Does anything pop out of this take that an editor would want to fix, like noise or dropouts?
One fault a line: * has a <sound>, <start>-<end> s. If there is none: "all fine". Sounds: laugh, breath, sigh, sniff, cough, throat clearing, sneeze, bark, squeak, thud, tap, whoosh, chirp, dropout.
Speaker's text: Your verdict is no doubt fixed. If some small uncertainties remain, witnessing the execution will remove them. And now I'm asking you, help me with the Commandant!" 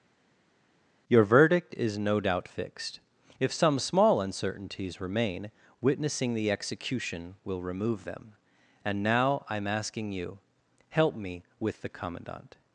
all fine